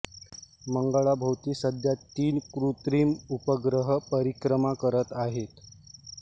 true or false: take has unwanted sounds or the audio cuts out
false